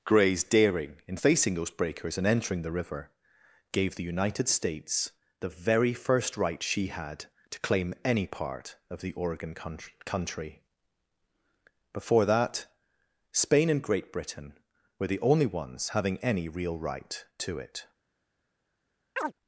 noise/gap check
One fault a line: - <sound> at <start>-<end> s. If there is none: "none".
- chirp at 19.2-19.3 s